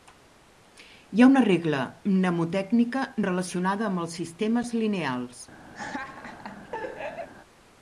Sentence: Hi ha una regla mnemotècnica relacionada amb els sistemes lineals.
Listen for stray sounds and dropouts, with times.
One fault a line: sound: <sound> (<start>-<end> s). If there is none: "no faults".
sound: laugh (5.7-7.3 s)